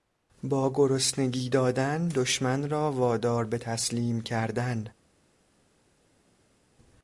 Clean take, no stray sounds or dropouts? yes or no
yes